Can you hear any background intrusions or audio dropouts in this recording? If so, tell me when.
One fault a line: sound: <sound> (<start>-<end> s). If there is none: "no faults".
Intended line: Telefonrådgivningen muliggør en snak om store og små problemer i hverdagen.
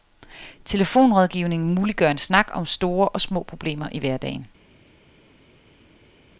no faults